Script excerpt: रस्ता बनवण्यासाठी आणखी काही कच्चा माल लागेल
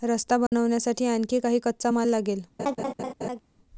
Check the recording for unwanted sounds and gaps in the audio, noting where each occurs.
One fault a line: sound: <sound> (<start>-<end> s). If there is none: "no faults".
sound: dropout (0.5-0.5 s)
sound: laugh (2.6-3.4 s)